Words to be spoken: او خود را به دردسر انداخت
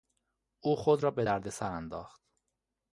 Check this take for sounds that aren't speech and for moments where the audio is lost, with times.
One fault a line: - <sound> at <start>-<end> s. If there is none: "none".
none